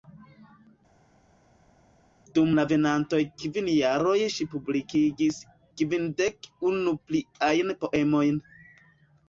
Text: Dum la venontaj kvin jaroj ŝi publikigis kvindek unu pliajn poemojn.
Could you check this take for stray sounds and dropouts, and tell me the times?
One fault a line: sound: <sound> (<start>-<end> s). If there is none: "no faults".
no faults